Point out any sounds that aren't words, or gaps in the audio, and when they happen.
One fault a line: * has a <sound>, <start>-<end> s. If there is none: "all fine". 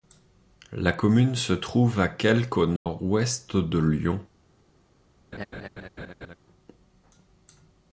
* has a dropout, 2.8-2.9 s
* has a laugh, 5.3-6.4 s